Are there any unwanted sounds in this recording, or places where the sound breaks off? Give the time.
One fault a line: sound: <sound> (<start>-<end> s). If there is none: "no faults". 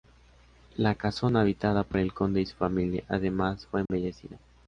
sound: dropout (3.9-3.9 s)